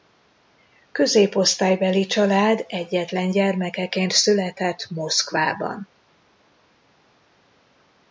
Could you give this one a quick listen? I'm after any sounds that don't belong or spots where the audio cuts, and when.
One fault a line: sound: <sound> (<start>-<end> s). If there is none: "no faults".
no faults